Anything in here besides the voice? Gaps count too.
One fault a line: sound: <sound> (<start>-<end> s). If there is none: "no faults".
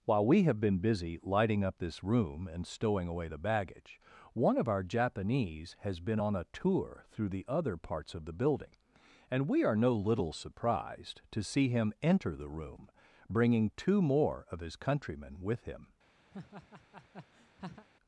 sound: laugh (16.3-17.9 s)